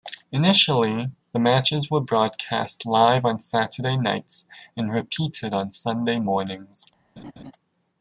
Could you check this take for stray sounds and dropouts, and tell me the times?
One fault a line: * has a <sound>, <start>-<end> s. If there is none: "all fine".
* has a laugh, 7.2-7.5 s